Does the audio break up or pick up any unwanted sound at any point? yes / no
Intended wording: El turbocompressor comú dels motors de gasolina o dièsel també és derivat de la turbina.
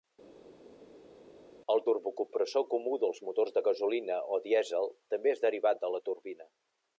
no